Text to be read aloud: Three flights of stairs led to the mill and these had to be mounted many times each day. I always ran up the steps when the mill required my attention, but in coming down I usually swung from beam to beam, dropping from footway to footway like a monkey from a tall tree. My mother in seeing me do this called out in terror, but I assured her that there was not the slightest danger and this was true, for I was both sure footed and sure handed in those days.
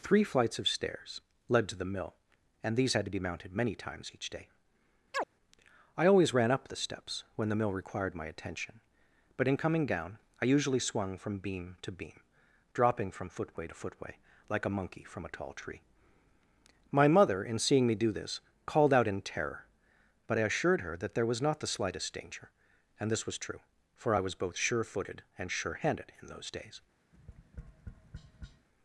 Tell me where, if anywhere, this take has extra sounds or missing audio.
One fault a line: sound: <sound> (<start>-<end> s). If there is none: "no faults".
sound: chirp (5.1-5.3 s)
sound: tap (27.1-28.7 s)